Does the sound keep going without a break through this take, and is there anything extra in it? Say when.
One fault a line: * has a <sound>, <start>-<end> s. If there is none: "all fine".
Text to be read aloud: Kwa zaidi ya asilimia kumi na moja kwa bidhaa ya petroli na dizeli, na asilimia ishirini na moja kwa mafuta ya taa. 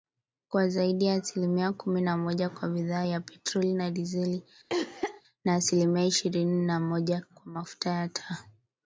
* has a cough, 4.7-5.2 s